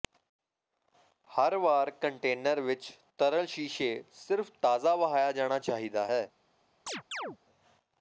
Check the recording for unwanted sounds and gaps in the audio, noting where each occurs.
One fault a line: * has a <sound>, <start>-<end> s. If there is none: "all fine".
* has a chirp, 6.9-7.4 s